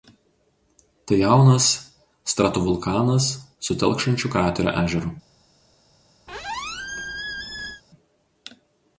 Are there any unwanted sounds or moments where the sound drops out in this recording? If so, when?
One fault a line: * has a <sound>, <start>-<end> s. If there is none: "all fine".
* has a squeak, 6.3-7.8 s